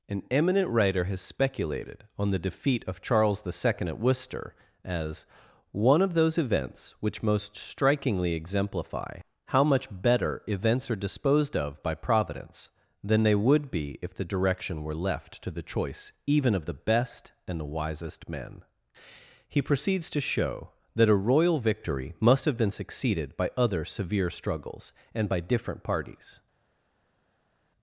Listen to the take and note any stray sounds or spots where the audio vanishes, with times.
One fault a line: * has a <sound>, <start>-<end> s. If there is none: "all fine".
all fine